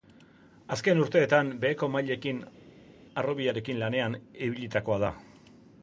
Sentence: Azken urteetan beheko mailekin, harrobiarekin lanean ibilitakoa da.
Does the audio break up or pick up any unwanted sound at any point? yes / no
no